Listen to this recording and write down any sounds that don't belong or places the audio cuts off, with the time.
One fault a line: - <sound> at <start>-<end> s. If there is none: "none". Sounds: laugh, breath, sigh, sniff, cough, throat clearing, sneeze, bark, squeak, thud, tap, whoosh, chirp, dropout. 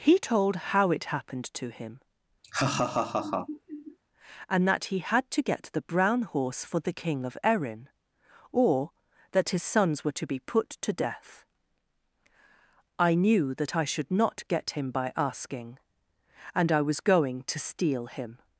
- laugh at 2.4-4.0 s